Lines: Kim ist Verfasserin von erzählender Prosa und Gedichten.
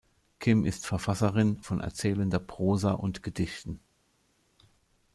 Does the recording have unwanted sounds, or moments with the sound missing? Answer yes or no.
no